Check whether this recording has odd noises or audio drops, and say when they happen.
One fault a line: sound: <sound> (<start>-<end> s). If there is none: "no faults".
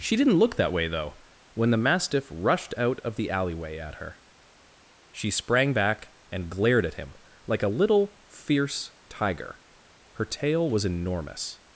no faults